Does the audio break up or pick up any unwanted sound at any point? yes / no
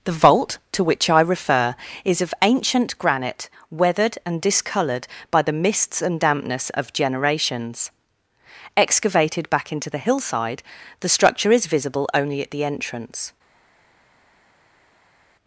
no